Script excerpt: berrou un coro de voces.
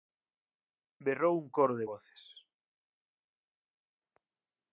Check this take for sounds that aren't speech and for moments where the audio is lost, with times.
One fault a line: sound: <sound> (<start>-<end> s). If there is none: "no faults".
no faults